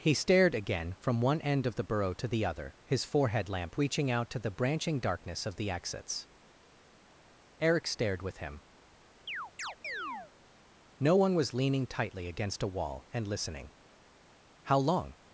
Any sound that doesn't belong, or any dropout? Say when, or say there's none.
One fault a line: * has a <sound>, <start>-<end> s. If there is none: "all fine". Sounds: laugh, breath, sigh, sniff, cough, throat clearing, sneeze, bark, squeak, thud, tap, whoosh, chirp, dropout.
* has a chirp, 9.3-10.3 s